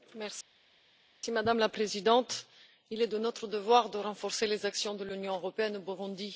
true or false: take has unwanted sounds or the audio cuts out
false